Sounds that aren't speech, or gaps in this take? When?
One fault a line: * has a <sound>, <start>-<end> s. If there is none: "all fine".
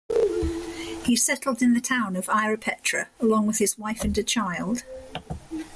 all fine